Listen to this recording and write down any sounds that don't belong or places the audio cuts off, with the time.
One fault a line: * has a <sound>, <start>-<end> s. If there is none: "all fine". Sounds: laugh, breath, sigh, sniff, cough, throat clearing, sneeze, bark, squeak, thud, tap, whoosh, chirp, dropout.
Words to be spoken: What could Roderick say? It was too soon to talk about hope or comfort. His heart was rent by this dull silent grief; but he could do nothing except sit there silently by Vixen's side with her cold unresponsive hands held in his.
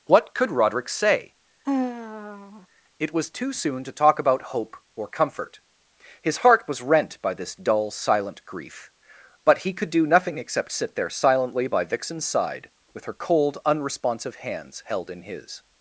* has a sigh, 1.7-2.7 s